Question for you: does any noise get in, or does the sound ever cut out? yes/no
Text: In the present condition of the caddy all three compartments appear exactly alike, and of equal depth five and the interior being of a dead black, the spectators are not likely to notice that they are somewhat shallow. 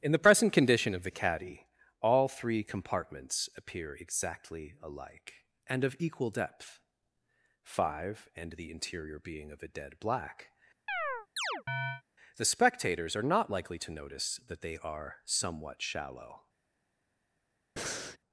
yes